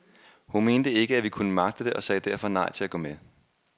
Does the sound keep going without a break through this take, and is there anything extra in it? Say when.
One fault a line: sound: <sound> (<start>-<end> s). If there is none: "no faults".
no faults